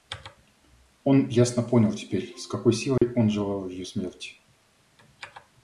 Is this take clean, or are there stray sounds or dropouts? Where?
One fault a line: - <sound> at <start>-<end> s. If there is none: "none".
- dropout at 3.0-3.0 s